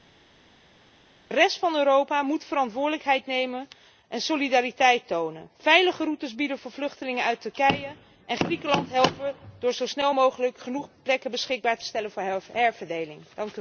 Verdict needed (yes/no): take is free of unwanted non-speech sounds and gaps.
yes